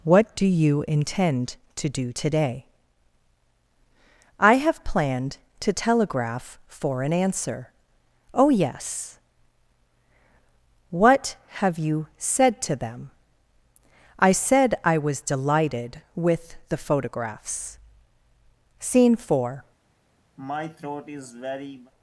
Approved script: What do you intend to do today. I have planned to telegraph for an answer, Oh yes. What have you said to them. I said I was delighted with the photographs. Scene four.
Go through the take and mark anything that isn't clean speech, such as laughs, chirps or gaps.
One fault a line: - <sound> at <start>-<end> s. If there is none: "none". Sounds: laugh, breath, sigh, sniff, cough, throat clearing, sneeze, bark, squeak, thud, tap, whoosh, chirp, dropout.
- throat clearing at 20.4-21.9 s